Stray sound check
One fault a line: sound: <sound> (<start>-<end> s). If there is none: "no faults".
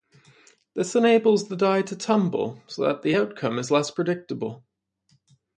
no faults